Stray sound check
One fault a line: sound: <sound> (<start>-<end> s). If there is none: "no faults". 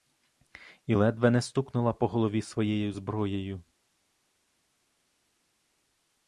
no faults